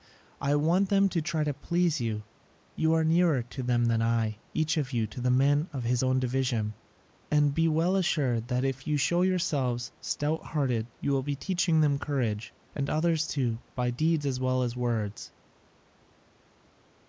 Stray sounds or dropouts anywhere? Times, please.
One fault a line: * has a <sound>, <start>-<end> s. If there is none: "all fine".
all fine